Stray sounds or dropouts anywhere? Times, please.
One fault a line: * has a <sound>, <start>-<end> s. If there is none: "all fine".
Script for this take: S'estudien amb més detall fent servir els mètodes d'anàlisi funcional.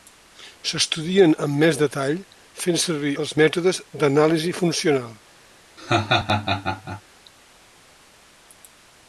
* has a laugh, 5.8-7.0 s